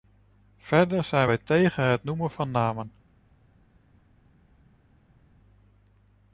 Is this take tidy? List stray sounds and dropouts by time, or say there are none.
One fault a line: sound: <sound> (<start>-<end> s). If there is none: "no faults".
no faults